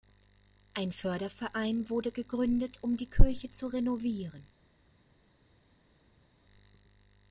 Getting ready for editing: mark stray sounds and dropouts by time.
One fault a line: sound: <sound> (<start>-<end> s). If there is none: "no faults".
no faults